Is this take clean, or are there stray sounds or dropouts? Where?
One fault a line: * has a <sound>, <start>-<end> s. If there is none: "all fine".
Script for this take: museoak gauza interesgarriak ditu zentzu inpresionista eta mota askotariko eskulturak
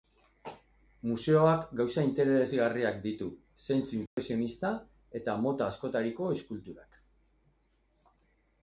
* has a dropout, 4.1-4.2 s